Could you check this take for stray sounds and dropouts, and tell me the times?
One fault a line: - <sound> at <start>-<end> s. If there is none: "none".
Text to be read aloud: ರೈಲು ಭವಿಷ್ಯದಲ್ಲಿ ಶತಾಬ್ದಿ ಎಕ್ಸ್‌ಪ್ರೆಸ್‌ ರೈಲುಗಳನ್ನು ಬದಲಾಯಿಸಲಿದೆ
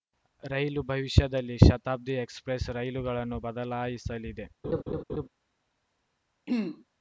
- laugh at 4.6-5.3 s
- throat clearing at 6.5-6.8 s